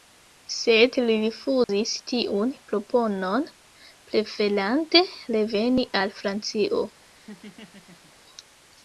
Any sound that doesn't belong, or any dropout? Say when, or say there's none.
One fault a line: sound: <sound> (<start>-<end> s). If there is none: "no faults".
sound: dropout (1.6-1.7 s)
sound: laugh (7.2-8.1 s)